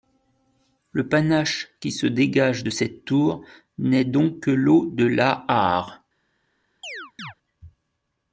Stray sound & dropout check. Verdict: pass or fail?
fail